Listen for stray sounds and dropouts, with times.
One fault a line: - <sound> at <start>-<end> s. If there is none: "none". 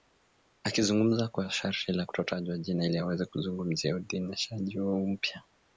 none